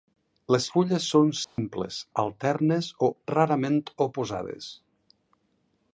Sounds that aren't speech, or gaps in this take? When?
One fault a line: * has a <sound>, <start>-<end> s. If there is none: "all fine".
* has a dropout, 1.4-1.6 s